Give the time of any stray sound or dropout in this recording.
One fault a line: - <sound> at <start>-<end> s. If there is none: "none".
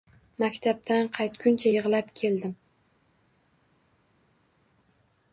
none